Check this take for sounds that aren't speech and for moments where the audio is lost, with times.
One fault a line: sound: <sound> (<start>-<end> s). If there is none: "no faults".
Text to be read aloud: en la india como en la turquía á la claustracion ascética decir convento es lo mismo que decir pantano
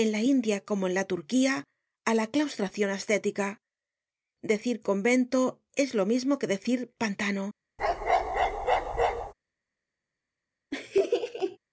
sound: bark (7.8-9.3 s)
sound: laugh (10.7-11.6 s)